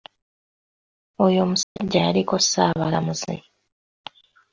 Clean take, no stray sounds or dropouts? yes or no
no